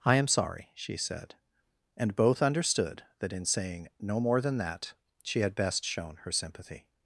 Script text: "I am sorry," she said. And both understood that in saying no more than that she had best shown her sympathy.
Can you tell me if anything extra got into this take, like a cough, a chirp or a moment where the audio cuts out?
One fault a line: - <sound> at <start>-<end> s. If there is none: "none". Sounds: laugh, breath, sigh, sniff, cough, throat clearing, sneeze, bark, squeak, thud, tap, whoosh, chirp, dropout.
none